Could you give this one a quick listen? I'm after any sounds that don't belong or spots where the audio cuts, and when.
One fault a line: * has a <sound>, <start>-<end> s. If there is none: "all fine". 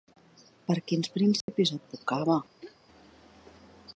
* has a dropout, 1.4-1.5 s
* has a throat clearing, 2.6-2.8 s